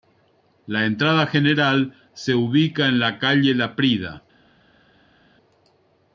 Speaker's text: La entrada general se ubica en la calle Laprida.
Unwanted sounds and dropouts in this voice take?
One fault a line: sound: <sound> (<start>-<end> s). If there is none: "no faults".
no faults